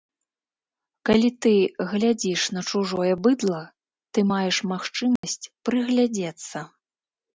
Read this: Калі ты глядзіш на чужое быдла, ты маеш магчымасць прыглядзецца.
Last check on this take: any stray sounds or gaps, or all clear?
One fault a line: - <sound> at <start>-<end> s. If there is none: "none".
- dropout at 5.2-5.2 s